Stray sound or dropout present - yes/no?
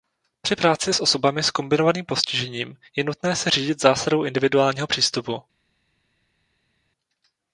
no